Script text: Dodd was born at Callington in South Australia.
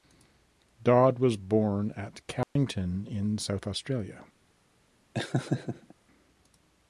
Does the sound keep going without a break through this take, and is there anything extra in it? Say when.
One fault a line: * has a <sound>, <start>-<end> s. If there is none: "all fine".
* has a dropout, 2.4-2.6 s
* has a laugh, 5.1-5.9 s